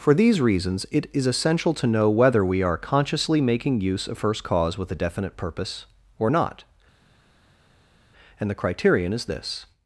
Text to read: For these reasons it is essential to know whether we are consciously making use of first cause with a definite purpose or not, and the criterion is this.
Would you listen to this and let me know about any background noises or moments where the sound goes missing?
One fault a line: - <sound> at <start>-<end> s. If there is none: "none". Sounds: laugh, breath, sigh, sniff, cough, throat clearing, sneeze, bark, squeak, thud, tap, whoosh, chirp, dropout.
none